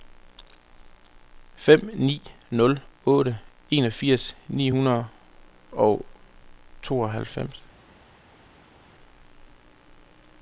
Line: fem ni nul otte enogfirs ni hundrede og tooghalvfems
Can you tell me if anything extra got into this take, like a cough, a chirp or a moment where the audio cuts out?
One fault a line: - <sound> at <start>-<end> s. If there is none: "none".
none